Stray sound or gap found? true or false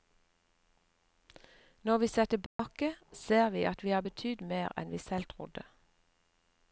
true